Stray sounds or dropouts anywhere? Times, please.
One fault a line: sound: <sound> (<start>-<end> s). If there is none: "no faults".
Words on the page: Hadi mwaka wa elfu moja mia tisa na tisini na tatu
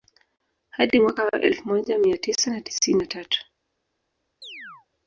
sound: chirp (4.4-4.9 s)